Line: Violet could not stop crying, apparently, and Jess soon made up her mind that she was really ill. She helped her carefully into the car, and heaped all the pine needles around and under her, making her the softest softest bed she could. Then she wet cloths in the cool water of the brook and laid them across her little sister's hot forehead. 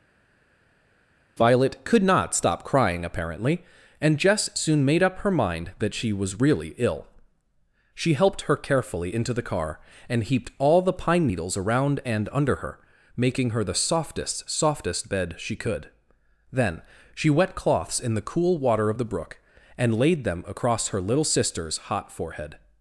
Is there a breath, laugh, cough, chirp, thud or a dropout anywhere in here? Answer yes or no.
no